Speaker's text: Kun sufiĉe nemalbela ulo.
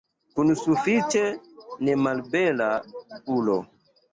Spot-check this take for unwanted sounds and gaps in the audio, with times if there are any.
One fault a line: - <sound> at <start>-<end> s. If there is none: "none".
none